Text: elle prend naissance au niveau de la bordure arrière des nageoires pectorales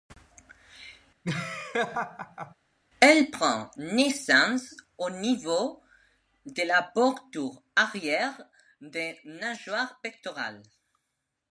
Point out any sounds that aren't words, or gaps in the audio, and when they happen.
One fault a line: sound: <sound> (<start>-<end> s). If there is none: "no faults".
sound: laugh (1.2-2.5 s)